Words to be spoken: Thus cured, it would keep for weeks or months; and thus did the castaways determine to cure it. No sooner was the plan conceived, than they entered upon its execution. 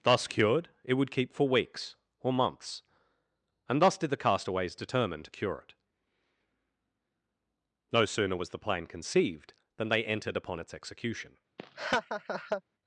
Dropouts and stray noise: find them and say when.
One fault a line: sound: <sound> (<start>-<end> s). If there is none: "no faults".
sound: laugh (11.6-12.6 s)